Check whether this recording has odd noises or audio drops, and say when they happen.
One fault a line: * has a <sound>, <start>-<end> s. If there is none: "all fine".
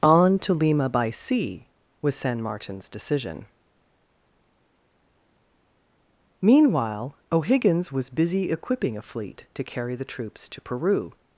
all fine